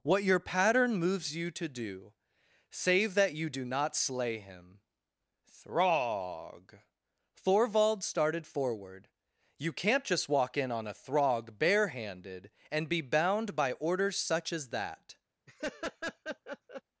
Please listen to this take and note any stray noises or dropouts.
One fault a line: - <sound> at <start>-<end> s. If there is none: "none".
- laugh at 15.5-16.8 s